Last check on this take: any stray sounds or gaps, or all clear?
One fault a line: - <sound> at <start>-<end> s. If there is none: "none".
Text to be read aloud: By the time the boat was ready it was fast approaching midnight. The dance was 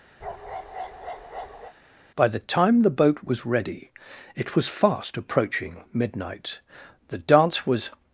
- bark at 0.2-1.7 s